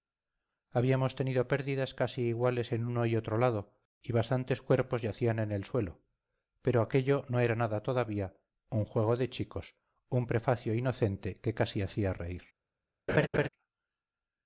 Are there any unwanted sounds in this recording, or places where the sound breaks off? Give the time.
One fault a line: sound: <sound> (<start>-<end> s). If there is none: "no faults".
sound: laugh (13.1-13.5 s)